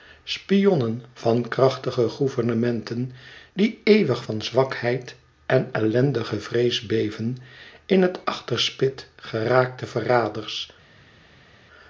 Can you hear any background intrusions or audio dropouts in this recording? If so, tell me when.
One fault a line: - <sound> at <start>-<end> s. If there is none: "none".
none